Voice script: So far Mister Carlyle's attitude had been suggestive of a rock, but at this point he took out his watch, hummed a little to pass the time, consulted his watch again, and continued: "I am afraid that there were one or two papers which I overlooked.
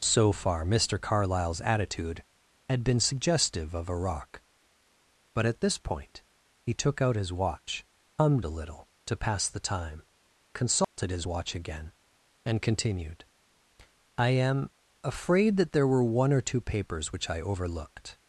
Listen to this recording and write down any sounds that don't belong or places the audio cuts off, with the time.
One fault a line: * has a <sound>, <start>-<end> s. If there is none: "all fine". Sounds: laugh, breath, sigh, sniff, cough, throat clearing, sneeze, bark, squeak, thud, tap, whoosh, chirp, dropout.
* has a dropout, 10.8-11.0 s